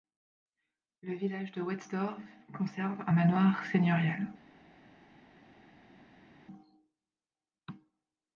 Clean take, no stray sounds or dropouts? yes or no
yes